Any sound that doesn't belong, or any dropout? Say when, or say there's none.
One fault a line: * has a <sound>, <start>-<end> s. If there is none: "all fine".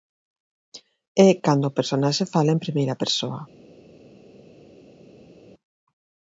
all fine